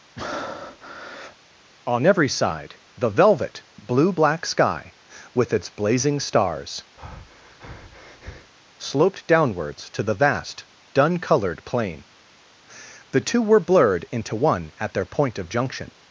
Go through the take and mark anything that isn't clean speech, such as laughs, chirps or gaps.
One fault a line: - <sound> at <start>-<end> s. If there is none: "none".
- breath at 0.2-1.4 s
- breath at 7.0-8.5 s